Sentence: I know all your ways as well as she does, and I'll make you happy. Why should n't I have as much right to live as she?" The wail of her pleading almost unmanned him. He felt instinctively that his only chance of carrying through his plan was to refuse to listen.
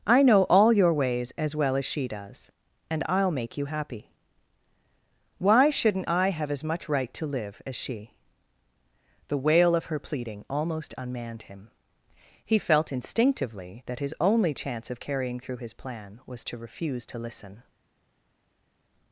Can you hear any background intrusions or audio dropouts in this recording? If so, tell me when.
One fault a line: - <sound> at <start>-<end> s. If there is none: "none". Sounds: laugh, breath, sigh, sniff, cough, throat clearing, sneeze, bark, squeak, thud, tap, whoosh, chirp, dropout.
none